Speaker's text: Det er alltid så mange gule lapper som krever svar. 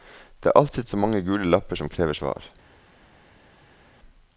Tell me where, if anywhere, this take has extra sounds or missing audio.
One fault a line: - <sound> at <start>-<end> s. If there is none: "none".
none